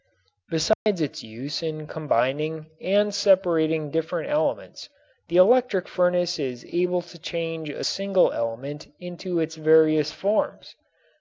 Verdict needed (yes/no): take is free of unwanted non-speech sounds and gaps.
no